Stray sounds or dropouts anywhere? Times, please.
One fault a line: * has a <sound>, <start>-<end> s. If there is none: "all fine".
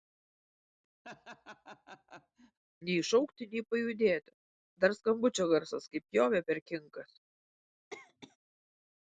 * has a laugh, 1.0-2.6 s
* has a cough, 7.9-8.4 s